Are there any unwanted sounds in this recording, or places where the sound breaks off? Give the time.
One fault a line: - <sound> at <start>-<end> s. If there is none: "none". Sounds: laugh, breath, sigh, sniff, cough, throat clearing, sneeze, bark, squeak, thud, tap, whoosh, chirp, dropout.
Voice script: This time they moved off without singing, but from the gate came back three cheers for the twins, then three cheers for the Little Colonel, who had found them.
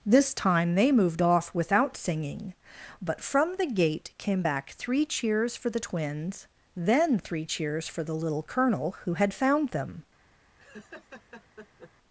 - laugh at 10.6-11.9 s